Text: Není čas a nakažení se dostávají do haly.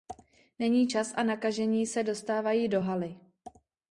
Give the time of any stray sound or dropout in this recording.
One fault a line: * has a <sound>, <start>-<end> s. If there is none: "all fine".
all fine